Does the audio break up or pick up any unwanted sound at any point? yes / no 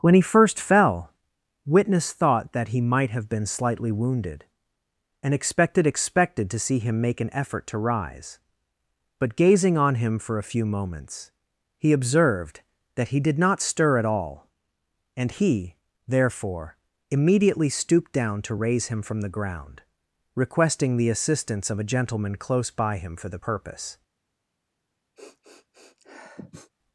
yes